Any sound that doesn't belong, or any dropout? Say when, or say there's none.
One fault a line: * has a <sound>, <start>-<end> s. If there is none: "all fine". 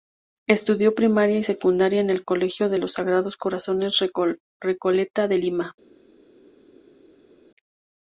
all fine